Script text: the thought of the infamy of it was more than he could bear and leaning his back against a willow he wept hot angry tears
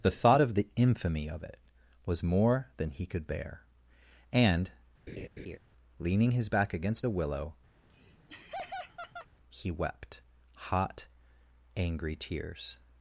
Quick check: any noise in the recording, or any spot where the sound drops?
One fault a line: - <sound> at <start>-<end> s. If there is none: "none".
- laugh at 5.1-5.6 s
- laugh at 7.7-9.3 s